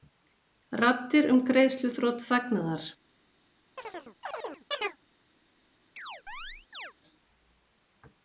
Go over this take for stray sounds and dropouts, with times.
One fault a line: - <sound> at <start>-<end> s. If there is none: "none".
- chirp at 3.8-5.0 s
- chirp at 6.0-6.9 s